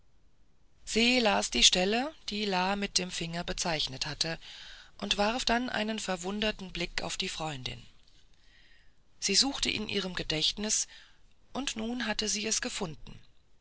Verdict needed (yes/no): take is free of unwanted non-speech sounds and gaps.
yes